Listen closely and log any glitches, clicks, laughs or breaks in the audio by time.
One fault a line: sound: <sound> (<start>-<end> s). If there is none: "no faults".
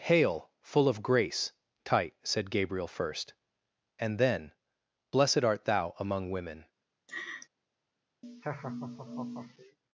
sound: laugh (7.1-7.5 s)
sound: laugh (8.2-9.8 s)